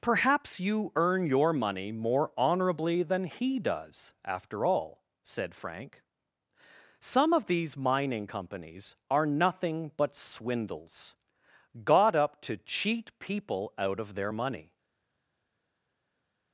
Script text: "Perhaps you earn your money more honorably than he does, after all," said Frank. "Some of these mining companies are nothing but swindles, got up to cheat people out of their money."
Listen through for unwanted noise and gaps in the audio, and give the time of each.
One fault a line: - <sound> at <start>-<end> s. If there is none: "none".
none